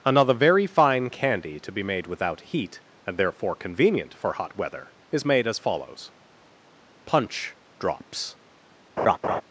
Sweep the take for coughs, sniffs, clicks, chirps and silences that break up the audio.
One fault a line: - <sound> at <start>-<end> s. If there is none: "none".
- laugh at 9.0-9.4 s